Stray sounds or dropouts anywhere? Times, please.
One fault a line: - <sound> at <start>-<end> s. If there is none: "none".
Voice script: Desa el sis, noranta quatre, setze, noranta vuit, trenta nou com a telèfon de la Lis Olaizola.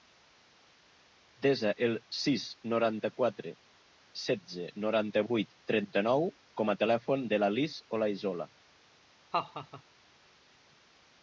- laugh at 9.3-9.8 s